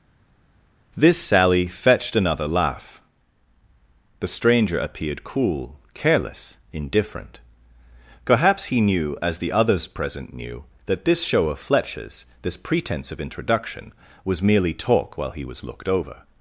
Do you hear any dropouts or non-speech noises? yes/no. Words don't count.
no